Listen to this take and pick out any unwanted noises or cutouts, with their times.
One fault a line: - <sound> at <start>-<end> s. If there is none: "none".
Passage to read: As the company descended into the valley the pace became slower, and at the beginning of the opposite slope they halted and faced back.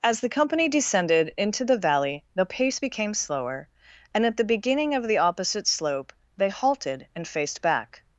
none